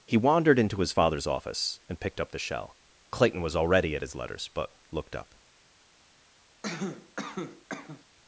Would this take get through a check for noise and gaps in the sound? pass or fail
fail